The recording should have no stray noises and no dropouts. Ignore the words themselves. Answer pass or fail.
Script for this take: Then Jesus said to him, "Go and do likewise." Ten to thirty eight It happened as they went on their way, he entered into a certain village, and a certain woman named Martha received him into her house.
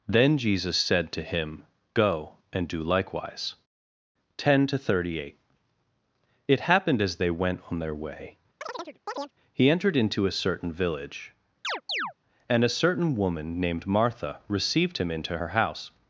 fail